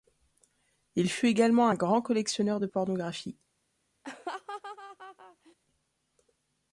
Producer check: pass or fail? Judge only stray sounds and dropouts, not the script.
fail